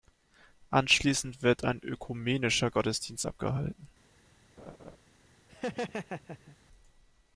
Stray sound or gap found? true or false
true